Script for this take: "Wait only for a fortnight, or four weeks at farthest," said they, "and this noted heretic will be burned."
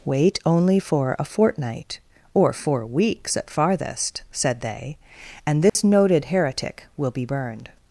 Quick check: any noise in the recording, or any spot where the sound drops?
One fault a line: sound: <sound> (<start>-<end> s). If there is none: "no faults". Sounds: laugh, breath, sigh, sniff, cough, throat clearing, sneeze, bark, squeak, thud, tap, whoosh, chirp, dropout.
sound: dropout (5.7-5.8 s)